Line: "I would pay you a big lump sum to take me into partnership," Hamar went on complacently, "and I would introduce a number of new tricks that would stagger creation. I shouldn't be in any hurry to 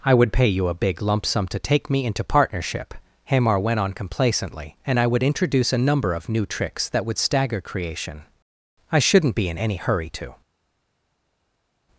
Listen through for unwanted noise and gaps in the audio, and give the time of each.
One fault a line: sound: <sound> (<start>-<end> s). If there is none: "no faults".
no faults